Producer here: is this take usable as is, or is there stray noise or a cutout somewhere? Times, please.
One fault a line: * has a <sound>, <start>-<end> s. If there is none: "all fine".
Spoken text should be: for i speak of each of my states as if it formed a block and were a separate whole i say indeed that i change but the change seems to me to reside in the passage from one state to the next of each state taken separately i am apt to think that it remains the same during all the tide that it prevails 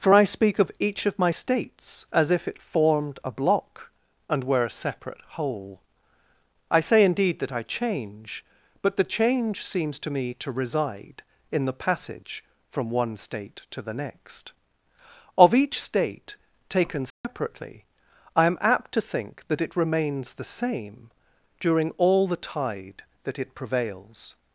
* has a dropout, 17.1-17.2 s